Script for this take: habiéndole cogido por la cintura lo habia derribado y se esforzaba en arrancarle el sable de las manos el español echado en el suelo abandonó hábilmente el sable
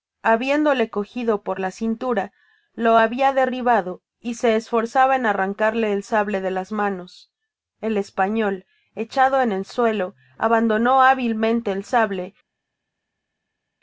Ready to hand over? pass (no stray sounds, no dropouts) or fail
pass